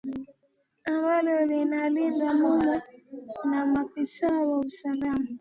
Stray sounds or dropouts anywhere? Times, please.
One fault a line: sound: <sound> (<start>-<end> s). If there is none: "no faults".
no faults